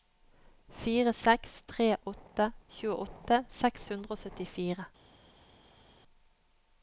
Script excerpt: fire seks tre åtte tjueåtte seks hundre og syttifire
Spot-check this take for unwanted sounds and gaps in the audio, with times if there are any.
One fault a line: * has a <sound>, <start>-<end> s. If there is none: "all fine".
all fine